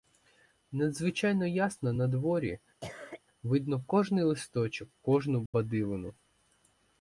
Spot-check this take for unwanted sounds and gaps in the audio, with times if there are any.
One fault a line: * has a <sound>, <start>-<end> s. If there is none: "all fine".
* has a cough, 2.8-3.2 s
* has a dropout, 5.5-5.5 s